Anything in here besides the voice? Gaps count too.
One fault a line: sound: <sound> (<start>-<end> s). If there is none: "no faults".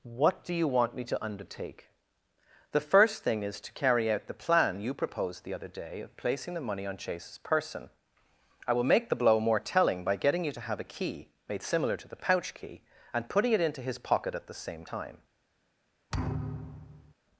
sound: thud (16.1-17.1 s)